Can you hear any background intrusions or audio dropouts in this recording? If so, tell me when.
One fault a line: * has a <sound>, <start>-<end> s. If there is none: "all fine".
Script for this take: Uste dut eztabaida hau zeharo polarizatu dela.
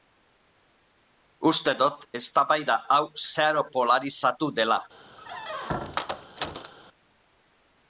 * has a squeak, 5.2-6.7 s